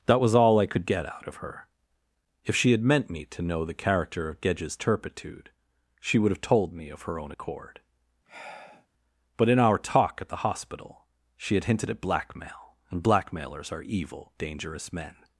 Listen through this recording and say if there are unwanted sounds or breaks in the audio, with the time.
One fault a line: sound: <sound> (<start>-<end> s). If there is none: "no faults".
sound: sigh (8.2-8.9 s)